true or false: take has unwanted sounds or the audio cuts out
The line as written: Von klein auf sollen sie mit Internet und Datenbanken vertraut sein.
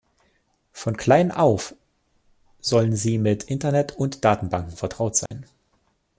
true